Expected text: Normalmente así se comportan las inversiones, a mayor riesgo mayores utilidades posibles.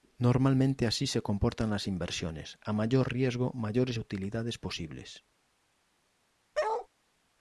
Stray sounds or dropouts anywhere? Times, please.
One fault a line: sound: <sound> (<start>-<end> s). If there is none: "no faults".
sound: bark (6.5-6.9 s)